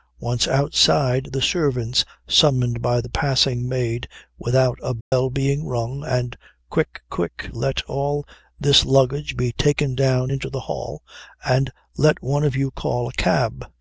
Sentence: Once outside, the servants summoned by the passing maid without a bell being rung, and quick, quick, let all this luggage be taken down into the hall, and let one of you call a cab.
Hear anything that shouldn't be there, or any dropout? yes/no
yes